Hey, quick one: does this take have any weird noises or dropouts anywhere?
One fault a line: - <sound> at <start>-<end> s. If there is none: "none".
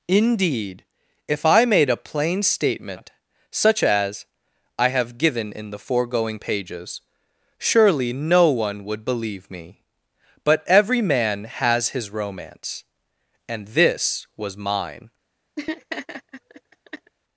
- laugh at 15.6-17.1 s